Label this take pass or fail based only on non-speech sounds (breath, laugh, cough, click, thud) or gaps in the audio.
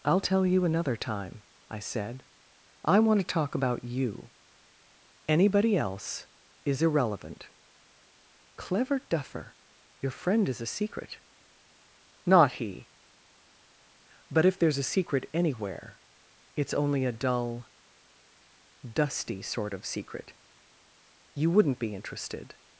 pass